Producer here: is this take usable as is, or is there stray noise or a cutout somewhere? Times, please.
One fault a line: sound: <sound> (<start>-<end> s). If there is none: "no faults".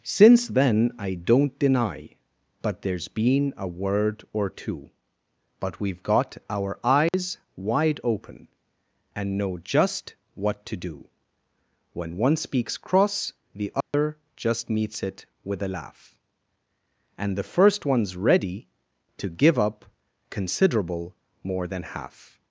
sound: dropout (7.1-7.1 s)
sound: dropout (13.8-13.9 s)